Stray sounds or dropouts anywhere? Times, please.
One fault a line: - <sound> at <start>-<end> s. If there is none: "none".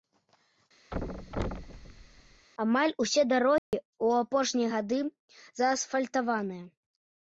- thud at 0.9-2.5 s
- dropout at 3.6-3.7 s